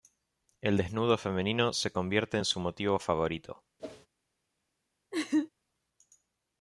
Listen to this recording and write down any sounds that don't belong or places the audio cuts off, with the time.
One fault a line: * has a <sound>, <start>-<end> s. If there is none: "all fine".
* has a whoosh, 3.8-4.1 s
* has a laugh, 5.1-5.5 s